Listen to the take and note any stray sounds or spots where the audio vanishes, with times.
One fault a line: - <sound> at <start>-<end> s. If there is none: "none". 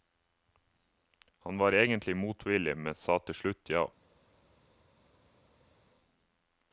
none